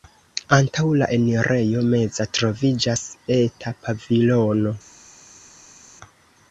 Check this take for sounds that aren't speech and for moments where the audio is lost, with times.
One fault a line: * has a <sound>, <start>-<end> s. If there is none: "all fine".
all fine